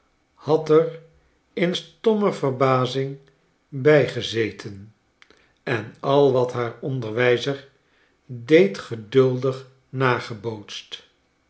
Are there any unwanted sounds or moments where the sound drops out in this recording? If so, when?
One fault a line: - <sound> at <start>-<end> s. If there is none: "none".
none